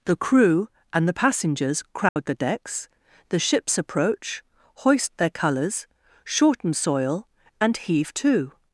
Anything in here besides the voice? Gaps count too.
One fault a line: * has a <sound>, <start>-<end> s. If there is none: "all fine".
* has a dropout, 2.1-2.2 s